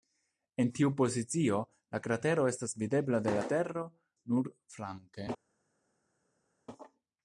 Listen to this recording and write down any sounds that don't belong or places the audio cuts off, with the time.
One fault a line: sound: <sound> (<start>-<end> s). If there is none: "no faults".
no faults